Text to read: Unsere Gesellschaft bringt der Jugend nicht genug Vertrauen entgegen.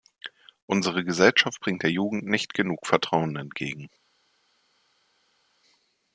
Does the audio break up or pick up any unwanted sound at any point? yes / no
no